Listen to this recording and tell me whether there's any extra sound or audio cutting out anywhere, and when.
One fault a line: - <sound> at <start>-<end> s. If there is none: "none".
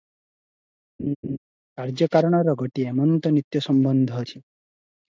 - laugh at 1.0-1.4 s